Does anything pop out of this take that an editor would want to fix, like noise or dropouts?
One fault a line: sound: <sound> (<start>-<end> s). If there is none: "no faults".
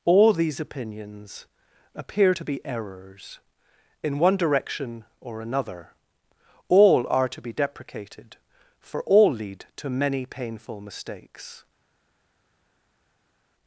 no faults